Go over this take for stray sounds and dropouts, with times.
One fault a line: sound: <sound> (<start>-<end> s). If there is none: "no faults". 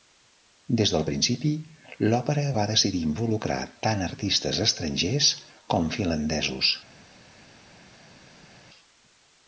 no faults